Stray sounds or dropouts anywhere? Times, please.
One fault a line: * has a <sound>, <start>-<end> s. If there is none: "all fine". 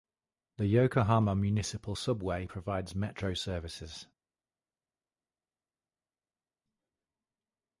all fine